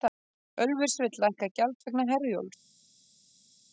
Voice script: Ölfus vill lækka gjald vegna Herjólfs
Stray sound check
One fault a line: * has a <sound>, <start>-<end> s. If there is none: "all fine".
all fine